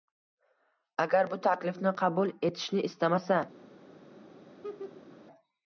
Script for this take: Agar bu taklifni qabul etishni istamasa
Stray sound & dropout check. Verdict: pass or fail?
fail